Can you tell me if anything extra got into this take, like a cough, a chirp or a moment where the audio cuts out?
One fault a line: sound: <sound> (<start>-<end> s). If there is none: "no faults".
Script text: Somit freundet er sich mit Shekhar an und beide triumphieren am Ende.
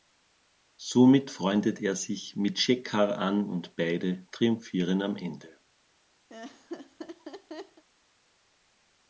sound: laugh (6.3-7.8 s)